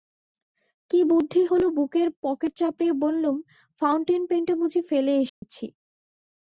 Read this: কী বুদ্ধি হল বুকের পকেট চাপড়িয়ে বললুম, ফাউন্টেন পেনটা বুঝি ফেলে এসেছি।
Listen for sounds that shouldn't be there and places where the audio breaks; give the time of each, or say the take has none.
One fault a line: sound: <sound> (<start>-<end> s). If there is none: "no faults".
sound: dropout (5.3-5.4 s)